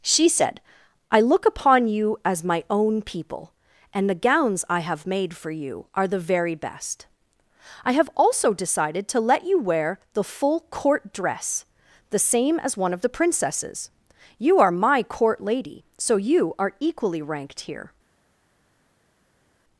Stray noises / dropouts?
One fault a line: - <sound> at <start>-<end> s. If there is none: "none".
none